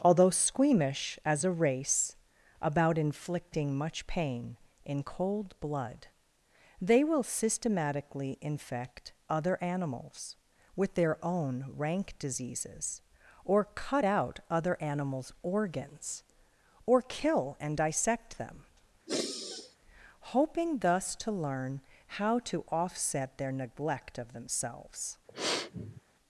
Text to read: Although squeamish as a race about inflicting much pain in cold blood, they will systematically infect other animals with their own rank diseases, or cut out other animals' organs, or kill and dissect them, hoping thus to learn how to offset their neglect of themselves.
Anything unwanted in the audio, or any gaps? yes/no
yes